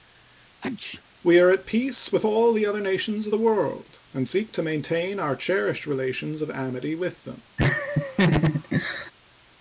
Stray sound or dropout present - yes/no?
yes